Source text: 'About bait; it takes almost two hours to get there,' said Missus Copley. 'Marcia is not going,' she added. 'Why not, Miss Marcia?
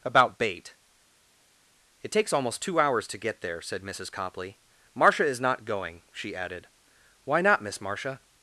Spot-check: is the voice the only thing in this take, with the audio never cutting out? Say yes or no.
yes